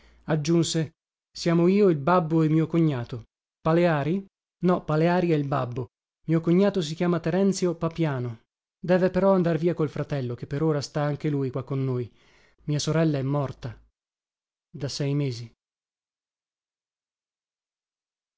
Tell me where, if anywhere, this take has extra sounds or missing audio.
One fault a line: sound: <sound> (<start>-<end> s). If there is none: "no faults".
no faults